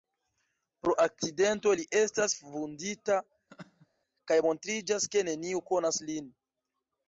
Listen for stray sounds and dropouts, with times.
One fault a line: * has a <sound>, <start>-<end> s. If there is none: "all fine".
* has a laugh, 3.5-3.9 s